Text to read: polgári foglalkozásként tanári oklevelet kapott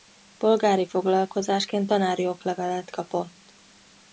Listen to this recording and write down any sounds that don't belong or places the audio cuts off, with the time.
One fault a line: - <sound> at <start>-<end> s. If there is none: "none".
none